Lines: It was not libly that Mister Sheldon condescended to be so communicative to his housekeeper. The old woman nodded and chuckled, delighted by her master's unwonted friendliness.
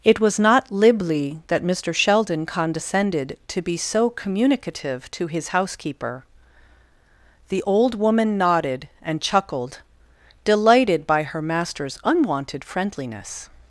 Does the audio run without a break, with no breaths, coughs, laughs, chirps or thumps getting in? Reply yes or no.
yes